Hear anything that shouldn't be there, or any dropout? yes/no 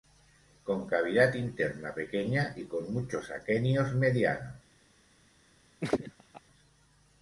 yes